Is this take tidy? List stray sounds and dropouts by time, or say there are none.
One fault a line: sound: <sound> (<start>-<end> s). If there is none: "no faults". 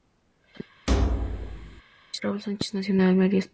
sound: thud (0.9-1.8 s)